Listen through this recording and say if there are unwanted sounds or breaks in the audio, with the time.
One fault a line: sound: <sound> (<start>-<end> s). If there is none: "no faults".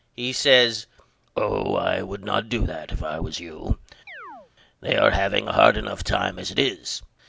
sound: chirp (4.1-4.5 s)